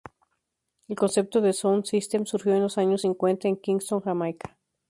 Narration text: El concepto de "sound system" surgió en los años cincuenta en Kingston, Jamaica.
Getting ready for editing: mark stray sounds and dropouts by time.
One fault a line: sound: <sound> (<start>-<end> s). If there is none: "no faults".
no faults